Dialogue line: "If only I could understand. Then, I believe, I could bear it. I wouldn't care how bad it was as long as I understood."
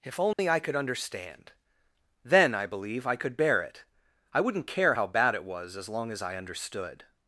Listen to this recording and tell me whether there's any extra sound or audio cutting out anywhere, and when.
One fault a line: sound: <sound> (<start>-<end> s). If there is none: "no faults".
sound: dropout (0.3-0.4 s)